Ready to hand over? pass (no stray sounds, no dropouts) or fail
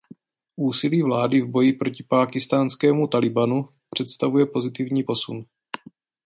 pass